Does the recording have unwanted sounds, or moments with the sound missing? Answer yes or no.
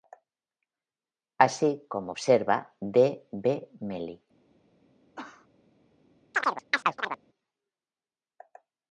yes